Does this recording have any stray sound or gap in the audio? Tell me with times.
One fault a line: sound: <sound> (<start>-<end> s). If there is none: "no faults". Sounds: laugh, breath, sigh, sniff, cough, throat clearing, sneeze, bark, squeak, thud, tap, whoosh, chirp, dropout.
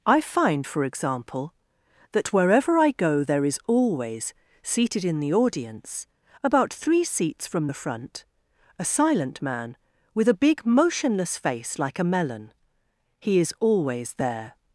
no faults